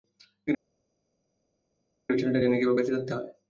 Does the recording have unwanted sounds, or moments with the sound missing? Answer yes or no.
no